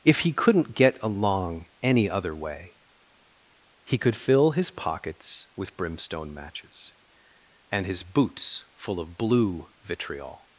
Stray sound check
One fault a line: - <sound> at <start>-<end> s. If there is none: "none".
none